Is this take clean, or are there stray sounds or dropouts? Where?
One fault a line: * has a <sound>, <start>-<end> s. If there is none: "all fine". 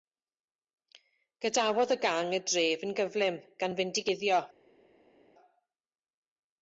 all fine